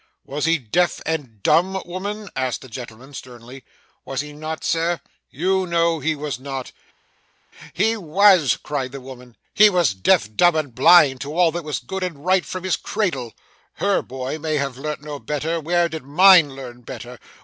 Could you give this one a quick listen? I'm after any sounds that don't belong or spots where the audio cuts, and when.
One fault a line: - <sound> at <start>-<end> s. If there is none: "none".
none